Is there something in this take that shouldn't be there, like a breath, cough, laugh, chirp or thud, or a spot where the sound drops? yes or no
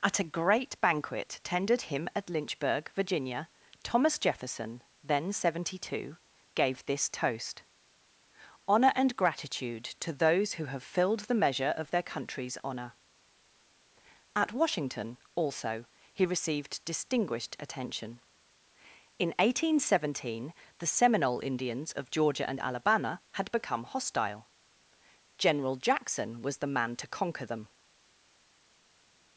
no